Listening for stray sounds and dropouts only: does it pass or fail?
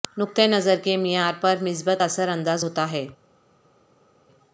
pass